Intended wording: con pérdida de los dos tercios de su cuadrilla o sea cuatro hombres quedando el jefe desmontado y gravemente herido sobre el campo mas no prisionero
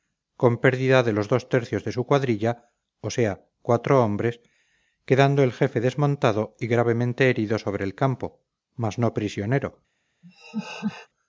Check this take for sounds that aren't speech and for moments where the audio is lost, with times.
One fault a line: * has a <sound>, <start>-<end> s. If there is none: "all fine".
* has a laugh, 10.2-11.1 s